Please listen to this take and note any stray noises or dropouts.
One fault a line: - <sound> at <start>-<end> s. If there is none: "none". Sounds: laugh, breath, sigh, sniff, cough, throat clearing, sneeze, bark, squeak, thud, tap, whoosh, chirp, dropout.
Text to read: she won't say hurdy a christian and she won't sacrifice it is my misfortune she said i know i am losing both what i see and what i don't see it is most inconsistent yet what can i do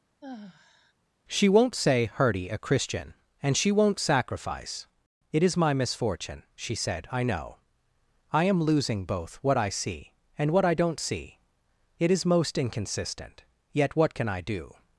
- sigh at 0.2-0.9 s